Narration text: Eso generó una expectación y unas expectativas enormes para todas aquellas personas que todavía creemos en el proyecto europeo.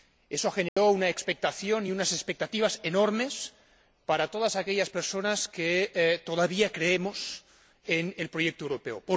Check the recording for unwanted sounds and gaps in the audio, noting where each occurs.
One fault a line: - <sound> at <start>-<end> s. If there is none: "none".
- dropout at 0.7-0.8 s